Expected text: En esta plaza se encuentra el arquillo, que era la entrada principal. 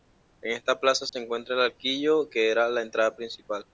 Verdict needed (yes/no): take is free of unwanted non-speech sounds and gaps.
no